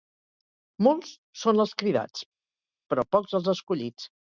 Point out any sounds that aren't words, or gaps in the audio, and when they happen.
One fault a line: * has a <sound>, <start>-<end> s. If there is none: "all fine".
all fine